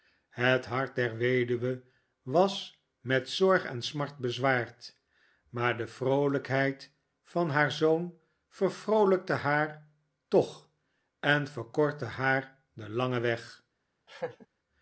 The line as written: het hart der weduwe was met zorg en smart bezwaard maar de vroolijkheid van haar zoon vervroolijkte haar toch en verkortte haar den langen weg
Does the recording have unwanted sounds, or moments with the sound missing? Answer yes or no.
yes